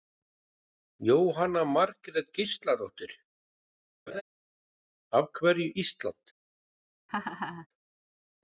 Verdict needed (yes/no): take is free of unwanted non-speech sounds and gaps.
no